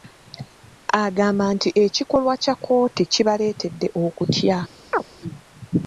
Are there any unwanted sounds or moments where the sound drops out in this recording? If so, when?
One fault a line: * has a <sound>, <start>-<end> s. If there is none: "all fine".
* has a chirp, 4.9-5.0 s